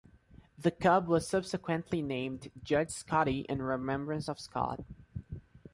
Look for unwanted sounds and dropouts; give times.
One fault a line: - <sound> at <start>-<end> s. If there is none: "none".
none